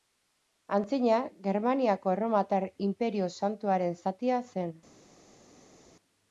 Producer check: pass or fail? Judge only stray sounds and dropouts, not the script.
pass